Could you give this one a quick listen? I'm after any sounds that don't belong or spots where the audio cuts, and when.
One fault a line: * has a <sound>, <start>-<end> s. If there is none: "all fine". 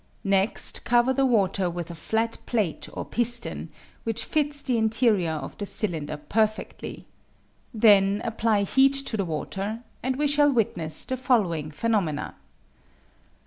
all fine